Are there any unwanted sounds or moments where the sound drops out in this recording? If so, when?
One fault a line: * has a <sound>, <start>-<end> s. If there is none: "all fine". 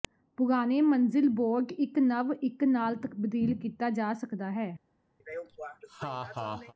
* has a laugh, 5.2-6.7 s